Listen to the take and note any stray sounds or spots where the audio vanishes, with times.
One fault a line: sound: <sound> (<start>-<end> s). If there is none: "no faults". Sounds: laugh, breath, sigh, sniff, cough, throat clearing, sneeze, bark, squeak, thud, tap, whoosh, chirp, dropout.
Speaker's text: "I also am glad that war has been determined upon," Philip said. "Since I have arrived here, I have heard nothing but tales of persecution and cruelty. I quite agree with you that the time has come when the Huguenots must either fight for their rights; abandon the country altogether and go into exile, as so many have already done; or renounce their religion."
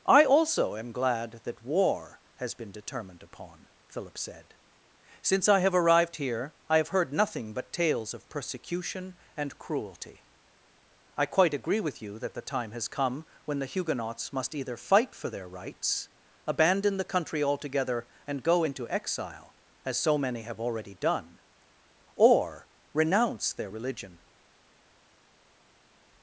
no faults